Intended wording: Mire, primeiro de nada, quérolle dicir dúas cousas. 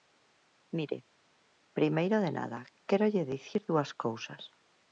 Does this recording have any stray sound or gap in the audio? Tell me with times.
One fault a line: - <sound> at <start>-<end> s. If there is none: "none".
none